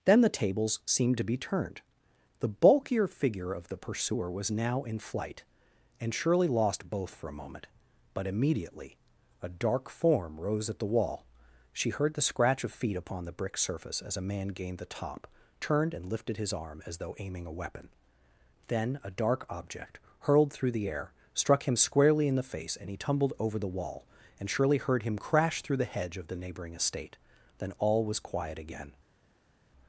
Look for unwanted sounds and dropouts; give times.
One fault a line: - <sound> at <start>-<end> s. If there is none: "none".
none